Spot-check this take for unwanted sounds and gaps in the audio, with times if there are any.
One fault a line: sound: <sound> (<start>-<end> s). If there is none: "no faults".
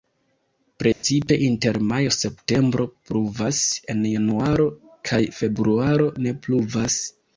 sound: dropout (0.9-1.0 s)